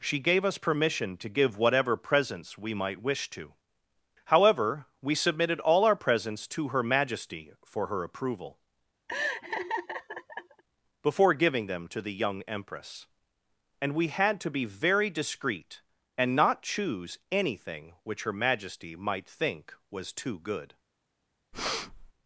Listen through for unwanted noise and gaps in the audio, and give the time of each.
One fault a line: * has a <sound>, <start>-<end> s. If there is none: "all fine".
* has a laugh, 9.1-10.6 s
* has a breath, 21.5-22.1 s